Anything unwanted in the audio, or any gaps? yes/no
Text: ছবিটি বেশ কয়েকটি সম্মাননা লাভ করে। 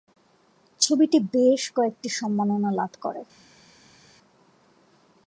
no